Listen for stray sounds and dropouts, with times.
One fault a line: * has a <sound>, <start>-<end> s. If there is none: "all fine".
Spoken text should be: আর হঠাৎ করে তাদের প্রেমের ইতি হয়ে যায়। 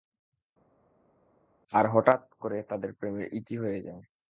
all fine